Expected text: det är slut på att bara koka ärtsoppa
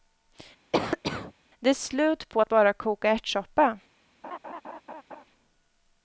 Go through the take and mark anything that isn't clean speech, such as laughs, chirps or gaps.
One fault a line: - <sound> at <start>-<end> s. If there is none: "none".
- cough at 0.7-1.3 s
- laugh at 4.2-5.2 s